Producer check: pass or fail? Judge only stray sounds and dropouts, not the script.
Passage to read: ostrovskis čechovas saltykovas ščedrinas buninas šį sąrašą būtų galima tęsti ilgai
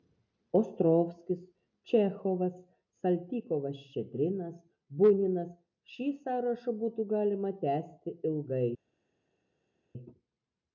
pass